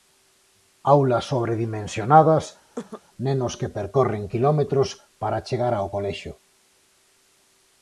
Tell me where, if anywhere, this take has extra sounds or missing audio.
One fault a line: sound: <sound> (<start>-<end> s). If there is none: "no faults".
sound: cough (2.8-3.0 s)